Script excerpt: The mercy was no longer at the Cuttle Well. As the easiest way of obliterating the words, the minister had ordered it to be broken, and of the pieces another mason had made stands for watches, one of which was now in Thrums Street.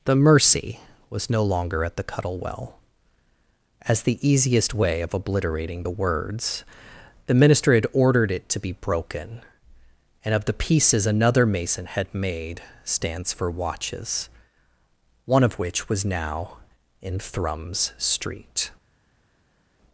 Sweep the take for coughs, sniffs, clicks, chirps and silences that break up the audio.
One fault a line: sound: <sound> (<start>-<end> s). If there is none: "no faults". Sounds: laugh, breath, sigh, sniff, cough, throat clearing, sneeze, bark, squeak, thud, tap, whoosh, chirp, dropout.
no faults